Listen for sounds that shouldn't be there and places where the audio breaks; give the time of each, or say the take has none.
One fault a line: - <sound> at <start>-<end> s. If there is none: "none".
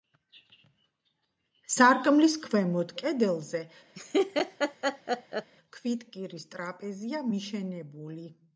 - laugh at 3.9-5.5 s